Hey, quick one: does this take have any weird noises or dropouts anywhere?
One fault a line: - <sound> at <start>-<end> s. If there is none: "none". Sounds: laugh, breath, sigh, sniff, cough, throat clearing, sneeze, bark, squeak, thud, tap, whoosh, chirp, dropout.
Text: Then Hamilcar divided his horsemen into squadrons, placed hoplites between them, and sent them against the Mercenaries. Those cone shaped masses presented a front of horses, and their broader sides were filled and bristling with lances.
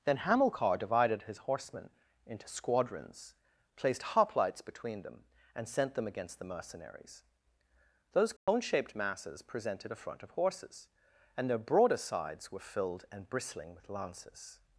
- dropout at 8.4-8.5 s